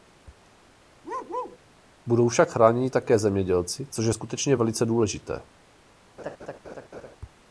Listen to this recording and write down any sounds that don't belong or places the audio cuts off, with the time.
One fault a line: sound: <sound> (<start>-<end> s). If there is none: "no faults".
sound: bark (1.0-1.6 s)
sound: laugh (6.2-7.2 s)